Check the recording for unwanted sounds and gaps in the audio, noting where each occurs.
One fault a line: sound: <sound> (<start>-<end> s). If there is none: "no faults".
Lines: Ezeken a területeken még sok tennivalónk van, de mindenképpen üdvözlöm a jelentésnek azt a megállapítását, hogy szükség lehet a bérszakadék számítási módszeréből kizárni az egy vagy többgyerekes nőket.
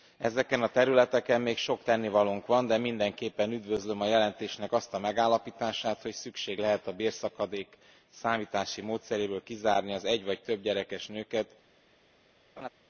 sound: laugh (12.6-12.7 s)